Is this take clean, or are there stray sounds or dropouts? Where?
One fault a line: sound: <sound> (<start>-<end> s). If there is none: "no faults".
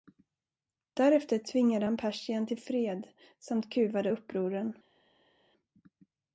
no faults